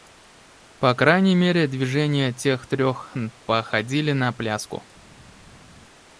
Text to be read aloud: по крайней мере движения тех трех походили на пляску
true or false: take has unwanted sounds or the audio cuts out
false